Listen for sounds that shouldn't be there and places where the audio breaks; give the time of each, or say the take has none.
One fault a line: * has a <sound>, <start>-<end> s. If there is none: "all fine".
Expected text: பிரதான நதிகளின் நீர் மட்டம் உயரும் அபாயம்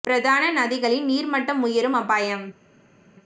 all fine